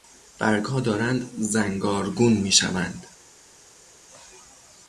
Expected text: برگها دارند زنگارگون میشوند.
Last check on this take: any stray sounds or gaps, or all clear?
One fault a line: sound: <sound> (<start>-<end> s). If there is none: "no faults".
no faults